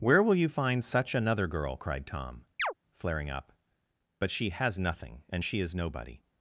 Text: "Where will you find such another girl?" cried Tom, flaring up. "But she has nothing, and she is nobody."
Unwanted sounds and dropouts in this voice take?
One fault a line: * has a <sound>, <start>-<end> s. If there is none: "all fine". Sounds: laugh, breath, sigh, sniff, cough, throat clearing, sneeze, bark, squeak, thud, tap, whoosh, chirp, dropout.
* has a chirp, 2.6-2.7 s